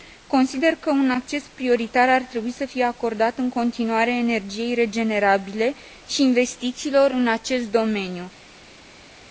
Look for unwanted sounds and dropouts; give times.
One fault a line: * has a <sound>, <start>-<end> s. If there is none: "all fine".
all fine